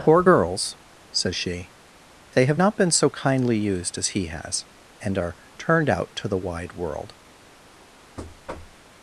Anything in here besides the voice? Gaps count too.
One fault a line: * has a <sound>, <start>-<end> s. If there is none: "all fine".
* has a thud, 8.2-8.8 s